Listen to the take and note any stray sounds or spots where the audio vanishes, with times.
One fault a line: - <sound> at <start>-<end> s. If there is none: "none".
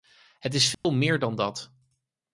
- dropout at 0.7-0.8 s